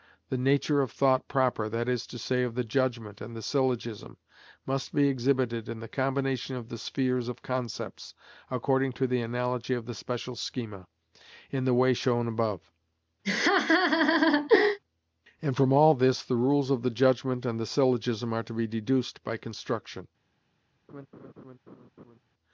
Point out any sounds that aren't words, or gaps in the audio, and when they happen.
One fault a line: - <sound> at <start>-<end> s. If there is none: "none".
- laugh at 13.2-14.8 s
- laugh at 20.9-22.2 s